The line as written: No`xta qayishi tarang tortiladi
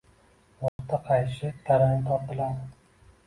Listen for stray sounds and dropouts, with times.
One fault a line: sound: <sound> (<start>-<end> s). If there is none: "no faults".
sound: dropout (0.7-0.8 s)